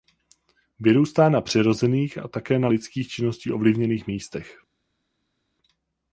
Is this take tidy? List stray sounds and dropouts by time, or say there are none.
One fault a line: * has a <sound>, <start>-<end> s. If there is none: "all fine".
all fine